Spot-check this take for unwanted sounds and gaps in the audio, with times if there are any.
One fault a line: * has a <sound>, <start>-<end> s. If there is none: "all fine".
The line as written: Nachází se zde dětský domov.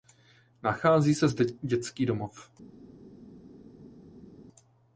all fine